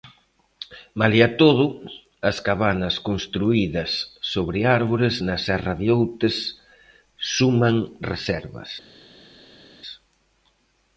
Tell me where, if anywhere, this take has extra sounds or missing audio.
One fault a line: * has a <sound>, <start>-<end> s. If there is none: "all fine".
all fine